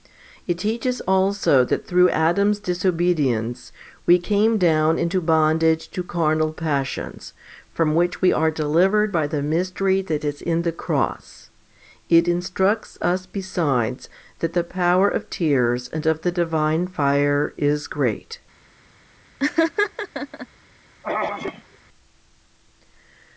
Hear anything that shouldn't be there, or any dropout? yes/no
yes